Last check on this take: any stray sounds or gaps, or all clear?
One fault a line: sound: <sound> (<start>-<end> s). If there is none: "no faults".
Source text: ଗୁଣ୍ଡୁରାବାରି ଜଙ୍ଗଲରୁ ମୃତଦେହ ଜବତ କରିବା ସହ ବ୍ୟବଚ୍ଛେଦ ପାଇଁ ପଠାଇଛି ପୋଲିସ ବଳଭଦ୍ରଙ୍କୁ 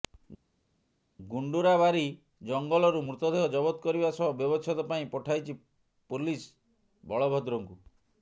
no faults